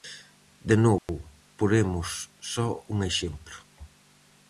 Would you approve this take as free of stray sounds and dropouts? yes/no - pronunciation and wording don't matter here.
no